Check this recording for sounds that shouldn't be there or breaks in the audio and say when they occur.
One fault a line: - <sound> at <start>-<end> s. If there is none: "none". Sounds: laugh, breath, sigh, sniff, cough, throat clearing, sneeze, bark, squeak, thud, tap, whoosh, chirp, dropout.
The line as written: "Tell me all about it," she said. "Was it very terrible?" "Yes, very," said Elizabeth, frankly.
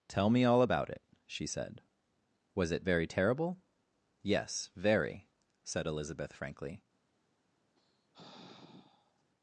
- sigh at 7.8-9.2 s